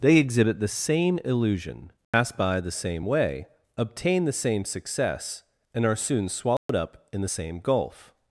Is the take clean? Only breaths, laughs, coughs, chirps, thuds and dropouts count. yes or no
no